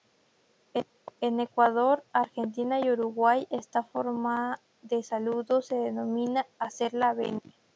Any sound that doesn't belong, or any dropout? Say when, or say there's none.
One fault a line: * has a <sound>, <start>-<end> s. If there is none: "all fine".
all fine